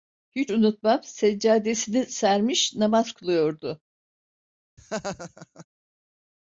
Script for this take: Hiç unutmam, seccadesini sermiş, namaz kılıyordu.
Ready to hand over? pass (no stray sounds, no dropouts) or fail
fail